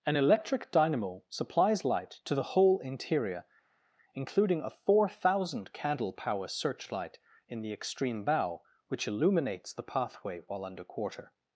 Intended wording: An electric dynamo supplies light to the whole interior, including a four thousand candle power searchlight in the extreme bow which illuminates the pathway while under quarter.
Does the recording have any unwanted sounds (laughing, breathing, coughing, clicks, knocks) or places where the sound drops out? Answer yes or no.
no